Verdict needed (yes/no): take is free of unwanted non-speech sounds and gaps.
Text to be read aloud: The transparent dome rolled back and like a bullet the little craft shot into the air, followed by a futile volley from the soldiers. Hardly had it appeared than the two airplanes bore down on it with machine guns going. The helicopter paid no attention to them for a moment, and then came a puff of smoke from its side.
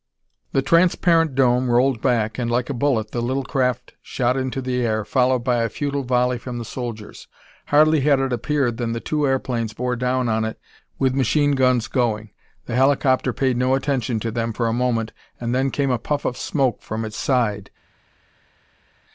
yes